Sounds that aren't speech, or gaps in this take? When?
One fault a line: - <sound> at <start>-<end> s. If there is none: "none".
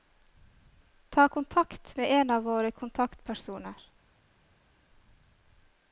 none